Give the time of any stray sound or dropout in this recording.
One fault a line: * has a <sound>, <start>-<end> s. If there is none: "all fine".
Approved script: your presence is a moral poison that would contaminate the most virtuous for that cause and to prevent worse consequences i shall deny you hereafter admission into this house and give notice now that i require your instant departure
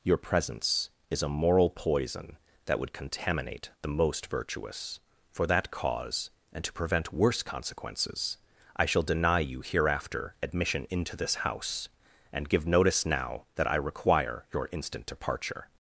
all fine